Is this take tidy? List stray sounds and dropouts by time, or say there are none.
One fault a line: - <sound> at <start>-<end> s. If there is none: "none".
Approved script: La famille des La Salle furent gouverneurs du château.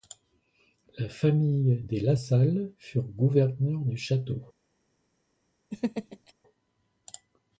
- laugh at 5.7-6.3 s